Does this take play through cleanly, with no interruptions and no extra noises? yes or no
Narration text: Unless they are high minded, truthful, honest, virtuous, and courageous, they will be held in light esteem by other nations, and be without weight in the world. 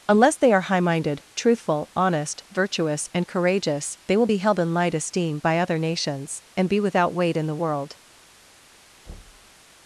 no